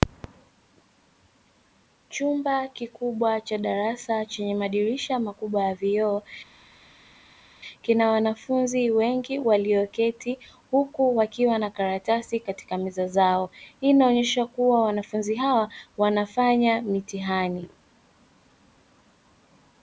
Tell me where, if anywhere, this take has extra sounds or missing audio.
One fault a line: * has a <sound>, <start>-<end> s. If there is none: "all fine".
all fine